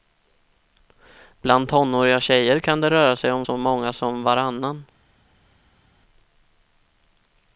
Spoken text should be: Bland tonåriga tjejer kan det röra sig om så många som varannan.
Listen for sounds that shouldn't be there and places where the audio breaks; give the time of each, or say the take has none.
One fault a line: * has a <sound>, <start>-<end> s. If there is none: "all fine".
all fine